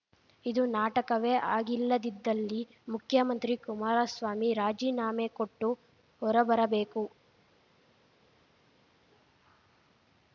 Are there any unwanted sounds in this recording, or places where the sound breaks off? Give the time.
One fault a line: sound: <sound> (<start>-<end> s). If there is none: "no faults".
no faults